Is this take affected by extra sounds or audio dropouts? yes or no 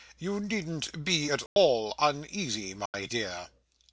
yes